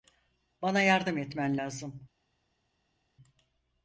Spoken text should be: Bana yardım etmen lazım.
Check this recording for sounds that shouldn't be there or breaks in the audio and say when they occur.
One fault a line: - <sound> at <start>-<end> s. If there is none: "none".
none